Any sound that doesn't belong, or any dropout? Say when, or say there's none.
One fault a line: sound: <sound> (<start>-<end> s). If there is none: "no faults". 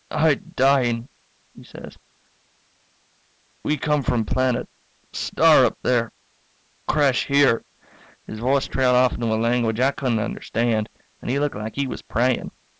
no faults